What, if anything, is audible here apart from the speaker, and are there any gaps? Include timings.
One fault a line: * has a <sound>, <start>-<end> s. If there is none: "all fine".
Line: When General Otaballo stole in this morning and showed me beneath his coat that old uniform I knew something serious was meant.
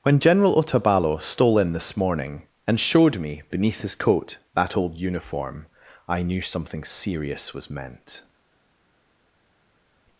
all fine